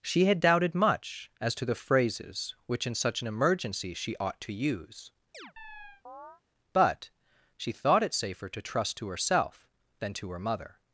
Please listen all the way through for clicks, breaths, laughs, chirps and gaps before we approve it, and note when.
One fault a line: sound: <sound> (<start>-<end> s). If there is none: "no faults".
sound: chirp (5.3-6.4 s)